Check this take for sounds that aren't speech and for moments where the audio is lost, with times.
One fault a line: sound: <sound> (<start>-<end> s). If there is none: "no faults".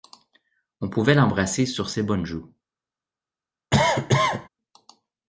sound: cough (3.7-4.5 s)